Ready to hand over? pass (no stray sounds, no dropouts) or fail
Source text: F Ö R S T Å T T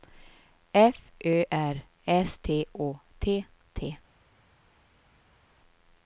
pass